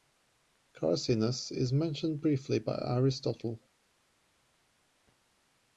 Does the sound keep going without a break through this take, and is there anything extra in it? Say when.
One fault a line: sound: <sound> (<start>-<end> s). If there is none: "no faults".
no faults